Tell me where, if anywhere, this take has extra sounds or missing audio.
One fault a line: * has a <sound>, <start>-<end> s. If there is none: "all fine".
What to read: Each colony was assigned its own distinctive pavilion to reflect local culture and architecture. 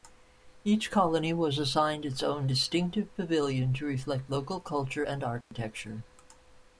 * has a dropout, 5.4-5.5 s